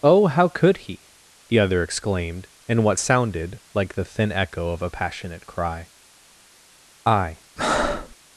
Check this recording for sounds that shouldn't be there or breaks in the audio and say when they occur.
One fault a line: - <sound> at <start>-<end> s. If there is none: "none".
- breath at 7.6-8.2 s